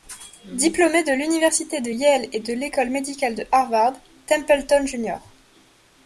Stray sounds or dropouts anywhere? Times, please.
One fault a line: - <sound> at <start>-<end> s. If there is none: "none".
none